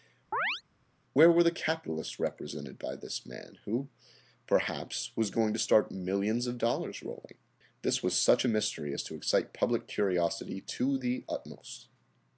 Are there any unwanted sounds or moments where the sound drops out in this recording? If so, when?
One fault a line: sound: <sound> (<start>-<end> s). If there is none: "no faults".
sound: chirp (0.3-0.6 s)